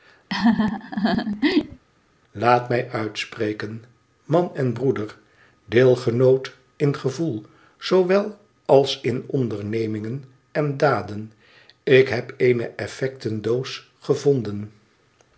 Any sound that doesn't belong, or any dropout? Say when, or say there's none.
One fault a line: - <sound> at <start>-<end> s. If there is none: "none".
- laugh at 0.3-1.8 s